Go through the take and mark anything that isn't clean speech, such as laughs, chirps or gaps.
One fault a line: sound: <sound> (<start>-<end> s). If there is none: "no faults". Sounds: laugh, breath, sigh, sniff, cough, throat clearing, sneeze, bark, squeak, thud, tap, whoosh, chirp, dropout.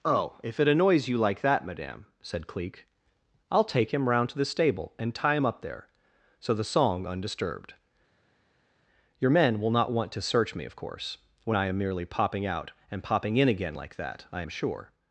no faults